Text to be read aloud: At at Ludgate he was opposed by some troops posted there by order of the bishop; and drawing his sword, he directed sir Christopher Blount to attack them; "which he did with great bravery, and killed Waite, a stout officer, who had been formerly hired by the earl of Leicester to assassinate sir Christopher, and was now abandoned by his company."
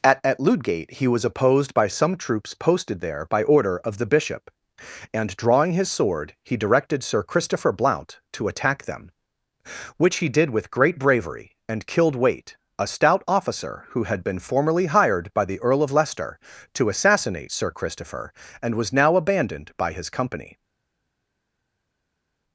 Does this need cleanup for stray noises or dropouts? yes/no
no